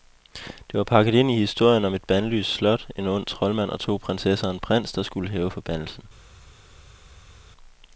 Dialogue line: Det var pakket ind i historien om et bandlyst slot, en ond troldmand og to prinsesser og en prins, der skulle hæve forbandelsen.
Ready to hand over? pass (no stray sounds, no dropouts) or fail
pass